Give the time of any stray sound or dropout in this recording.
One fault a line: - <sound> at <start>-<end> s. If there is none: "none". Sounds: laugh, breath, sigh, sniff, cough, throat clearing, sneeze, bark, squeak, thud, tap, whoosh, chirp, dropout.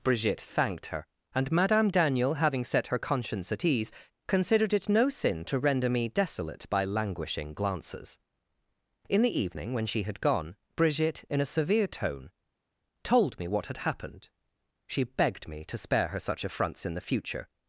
none